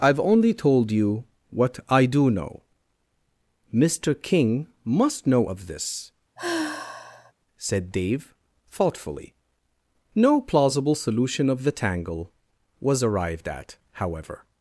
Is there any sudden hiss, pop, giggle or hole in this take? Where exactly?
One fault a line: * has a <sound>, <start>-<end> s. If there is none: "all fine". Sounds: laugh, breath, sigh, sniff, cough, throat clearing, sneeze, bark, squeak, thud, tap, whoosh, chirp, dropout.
* has a sigh, 6.4-7.3 s